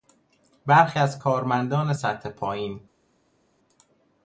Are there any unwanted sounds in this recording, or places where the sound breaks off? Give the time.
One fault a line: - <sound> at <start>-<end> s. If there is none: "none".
none